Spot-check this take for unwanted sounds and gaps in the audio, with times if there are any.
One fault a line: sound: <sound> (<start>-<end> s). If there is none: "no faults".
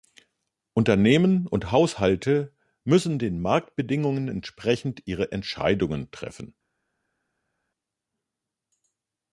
no faults